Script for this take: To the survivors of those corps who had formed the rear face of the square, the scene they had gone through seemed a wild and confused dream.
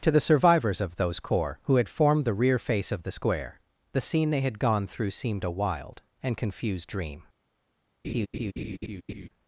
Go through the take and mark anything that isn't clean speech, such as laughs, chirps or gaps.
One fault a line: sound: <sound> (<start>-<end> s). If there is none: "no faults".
sound: laugh (8.0-9.3 s)